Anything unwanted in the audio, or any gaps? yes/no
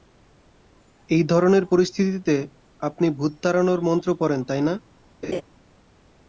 yes